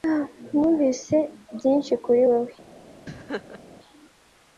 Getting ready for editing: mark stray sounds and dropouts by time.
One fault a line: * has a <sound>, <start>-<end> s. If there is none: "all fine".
* has a laugh, 3.1-3.6 s